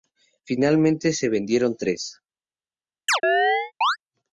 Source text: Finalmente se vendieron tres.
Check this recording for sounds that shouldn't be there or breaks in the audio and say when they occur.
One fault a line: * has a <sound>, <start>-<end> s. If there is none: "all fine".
* has a chirp, 3.1-4.0 s